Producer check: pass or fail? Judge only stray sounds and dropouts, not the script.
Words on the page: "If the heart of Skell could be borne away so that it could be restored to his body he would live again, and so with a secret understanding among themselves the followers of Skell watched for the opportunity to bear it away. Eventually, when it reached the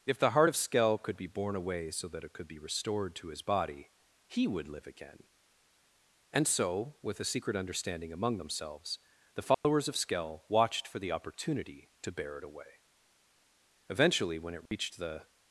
fail